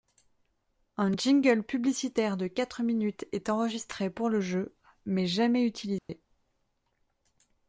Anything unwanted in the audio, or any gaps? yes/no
yes